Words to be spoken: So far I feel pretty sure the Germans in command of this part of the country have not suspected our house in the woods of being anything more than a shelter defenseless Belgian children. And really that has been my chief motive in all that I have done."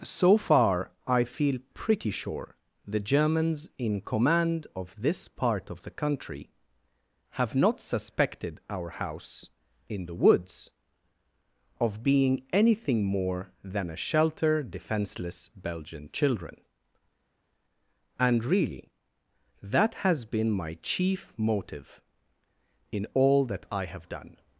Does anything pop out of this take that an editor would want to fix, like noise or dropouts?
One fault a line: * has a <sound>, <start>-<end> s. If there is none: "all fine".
all fine